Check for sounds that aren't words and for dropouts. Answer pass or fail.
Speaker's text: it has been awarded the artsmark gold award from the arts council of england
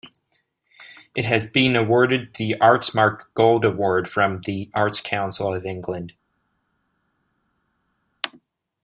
pass